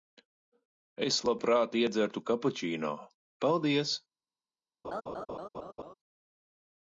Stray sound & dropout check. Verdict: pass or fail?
fail